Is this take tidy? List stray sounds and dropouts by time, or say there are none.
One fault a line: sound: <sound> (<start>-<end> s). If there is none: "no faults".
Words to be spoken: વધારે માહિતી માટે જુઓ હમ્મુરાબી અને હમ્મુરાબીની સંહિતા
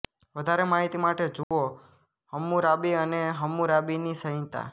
sound: dropout (1.4-1.5 s)